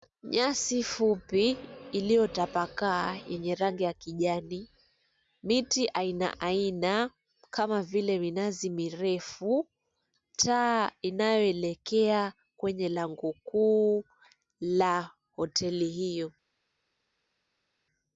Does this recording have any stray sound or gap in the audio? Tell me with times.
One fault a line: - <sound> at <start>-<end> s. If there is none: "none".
none